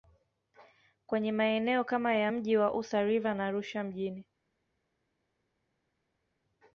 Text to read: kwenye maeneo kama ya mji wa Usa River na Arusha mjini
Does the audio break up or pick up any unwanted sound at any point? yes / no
no